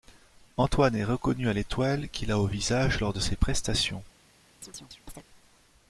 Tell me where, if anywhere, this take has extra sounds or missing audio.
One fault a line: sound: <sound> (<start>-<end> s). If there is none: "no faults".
sound: chirp (4.6-5.2 s)